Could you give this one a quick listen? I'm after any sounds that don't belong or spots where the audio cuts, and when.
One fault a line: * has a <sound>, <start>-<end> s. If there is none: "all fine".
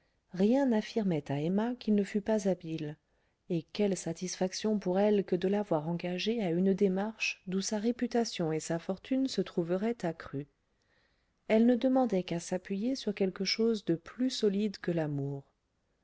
all fine